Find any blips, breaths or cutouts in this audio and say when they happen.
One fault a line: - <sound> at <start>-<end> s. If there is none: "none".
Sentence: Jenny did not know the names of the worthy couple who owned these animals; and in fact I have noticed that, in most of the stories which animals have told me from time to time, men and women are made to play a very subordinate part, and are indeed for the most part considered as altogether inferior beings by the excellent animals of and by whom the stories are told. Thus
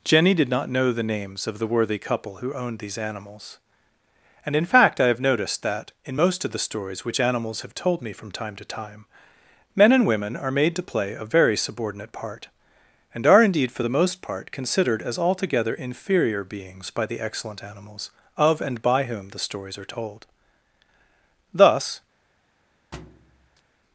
- thud at 22.9-23.6 s